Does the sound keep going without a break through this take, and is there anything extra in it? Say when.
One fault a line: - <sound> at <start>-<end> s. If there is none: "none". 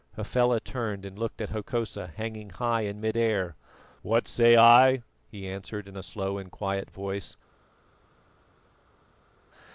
none